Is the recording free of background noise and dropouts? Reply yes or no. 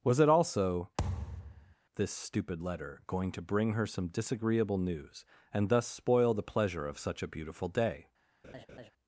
no